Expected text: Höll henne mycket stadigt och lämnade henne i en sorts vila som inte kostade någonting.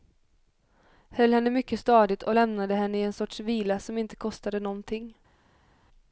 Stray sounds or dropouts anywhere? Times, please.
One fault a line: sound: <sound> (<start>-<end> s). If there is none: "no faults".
no faults